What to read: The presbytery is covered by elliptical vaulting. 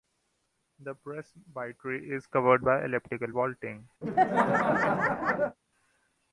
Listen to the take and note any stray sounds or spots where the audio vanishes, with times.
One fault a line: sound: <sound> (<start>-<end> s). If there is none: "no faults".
sound: laugh (4.0-5.6 s)